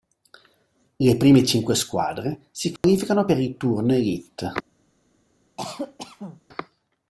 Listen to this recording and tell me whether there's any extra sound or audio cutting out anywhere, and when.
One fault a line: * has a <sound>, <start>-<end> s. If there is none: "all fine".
* has a dropout, 2.8-2.8 s
* has a cough, 5.6-6.4 s